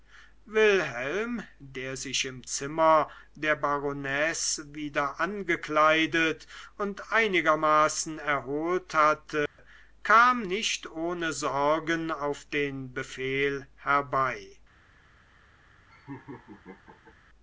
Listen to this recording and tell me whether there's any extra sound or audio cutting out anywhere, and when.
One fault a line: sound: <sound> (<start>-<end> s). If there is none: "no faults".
sound: dropout (9.5-9.6 s)
sound: laugh (15.9-17.2 s)